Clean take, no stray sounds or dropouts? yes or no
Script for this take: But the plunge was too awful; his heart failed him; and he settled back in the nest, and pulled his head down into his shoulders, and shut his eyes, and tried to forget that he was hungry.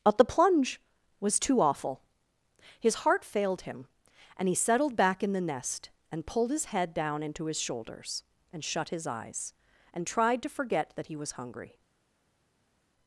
yes